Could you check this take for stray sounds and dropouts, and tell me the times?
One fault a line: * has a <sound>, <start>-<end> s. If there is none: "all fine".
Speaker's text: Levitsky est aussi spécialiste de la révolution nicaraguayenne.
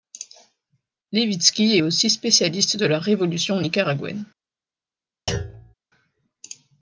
* has a thud, 5.3-5.7 s